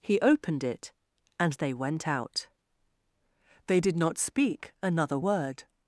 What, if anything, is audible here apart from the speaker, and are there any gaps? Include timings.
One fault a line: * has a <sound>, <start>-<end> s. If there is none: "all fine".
all fine